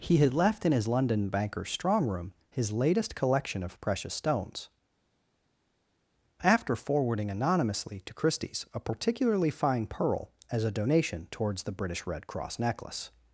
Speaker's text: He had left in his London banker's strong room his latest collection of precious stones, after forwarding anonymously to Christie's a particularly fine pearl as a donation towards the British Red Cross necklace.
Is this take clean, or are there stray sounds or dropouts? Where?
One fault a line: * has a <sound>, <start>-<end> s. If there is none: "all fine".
all fine